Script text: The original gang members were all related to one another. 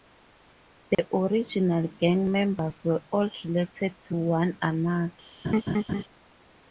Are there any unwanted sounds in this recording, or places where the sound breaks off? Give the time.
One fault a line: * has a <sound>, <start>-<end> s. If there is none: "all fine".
* has a dropout, 0.9-1.0 s
* has a laugh, 5.4-6.0 s